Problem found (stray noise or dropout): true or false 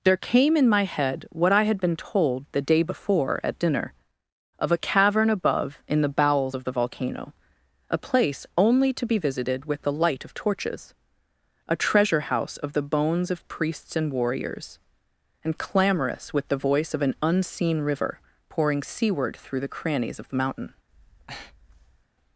true